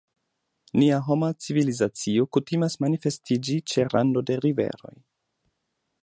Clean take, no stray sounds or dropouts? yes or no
yes